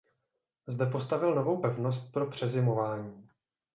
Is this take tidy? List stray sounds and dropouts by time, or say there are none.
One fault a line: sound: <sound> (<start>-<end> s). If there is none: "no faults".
no faults